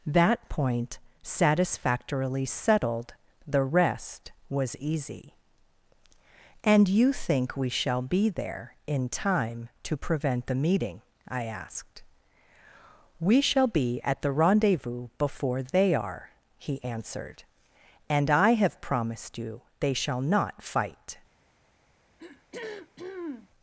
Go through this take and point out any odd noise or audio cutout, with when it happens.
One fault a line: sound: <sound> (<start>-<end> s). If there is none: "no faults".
sound: throat clearing (22.2-23.5 s)